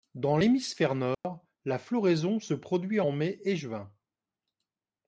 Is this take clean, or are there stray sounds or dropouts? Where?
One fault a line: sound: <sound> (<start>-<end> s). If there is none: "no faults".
sound: dropout (1.1-1.2 s)